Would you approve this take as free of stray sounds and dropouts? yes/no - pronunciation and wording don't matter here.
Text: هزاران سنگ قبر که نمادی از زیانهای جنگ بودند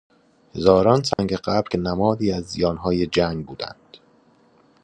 no